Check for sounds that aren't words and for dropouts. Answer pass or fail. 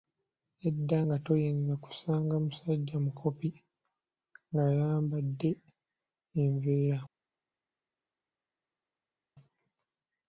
pass